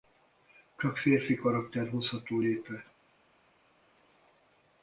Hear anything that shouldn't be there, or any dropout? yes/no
no